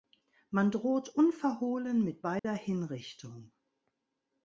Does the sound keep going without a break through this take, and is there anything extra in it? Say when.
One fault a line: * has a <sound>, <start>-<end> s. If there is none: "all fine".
* has a dropout, 2.4-2.4 s